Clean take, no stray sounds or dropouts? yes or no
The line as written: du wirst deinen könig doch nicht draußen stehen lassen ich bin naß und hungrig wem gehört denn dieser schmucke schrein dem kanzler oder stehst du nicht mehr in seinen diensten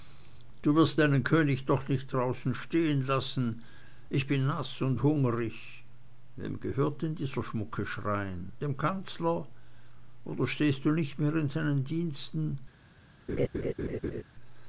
no